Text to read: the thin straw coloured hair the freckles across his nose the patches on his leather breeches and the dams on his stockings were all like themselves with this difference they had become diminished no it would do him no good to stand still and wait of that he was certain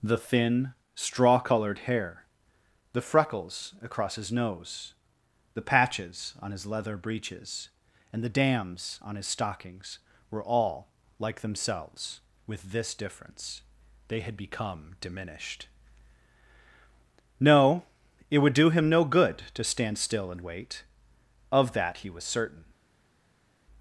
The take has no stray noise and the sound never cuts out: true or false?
true